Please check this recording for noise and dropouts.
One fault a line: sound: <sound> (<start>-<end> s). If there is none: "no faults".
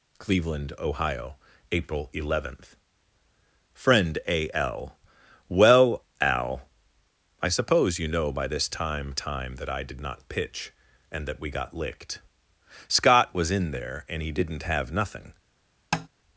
sound: tap (15.9-16.1 s)